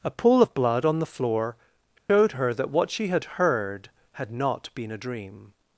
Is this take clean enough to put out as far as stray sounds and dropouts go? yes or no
no